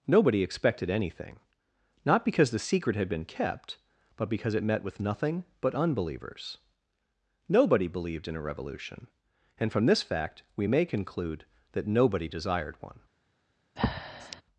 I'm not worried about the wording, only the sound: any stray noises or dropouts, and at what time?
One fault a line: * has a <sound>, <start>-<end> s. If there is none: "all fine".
* has a breath, 13.8-14.4 s